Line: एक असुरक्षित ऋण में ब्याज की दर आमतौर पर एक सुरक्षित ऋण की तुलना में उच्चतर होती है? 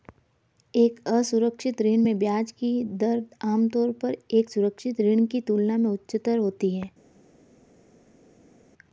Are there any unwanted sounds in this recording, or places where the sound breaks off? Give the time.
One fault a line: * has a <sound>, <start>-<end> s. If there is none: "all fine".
all fine